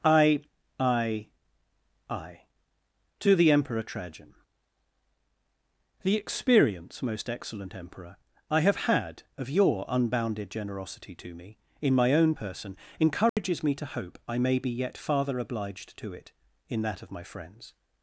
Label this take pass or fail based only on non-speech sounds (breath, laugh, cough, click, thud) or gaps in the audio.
fail